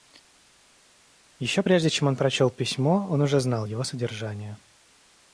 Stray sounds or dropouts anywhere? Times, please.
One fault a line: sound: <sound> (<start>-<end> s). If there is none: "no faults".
no faults